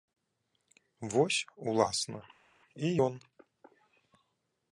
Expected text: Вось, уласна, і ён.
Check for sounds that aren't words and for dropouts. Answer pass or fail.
pass